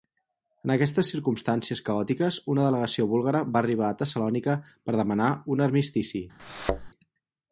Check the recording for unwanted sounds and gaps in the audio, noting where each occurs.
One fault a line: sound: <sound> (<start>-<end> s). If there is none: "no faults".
sound: thud (6.4-6.9 s)